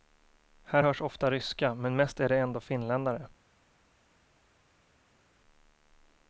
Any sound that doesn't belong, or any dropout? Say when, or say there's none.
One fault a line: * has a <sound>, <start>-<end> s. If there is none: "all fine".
all fine